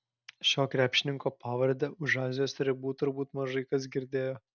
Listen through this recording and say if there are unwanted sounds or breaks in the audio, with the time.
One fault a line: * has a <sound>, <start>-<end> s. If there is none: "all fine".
all fine